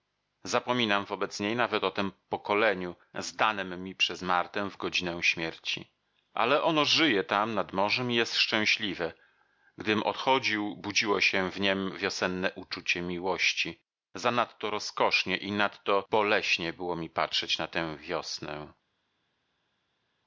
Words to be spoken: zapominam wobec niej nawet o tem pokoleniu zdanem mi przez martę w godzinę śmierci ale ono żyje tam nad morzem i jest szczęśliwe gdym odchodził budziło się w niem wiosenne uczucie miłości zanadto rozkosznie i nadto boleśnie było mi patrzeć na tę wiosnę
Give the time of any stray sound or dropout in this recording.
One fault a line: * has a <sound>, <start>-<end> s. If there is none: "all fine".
all fine